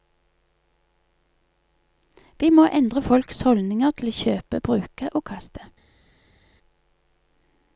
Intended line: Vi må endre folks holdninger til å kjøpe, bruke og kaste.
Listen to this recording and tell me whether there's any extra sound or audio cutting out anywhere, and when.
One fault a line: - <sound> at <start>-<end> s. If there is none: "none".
none